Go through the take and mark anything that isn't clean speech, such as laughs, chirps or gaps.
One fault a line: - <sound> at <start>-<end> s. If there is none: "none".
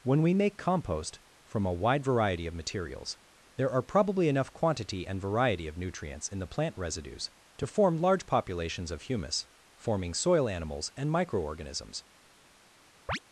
- chirp at 13.1-13.2 s